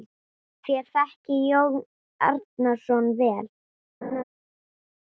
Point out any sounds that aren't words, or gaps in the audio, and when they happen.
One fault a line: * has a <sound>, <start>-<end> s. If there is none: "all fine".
* has a laugh, 4.0-4.2 s